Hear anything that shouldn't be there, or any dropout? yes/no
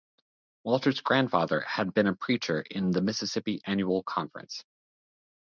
no